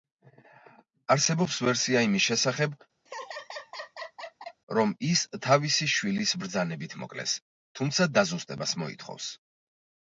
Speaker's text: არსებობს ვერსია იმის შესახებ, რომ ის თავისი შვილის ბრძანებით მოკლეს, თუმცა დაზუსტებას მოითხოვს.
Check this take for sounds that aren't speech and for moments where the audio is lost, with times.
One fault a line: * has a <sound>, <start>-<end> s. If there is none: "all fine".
* has a laugh, 3.1-4.6 s